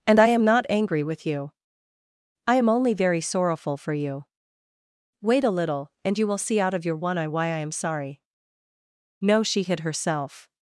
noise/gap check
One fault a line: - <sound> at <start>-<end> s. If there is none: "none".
none